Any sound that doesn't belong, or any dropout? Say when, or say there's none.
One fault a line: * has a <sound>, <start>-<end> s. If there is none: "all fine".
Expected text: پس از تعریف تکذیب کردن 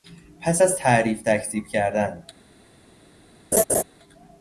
* has a laugh, 3.5-3.8 s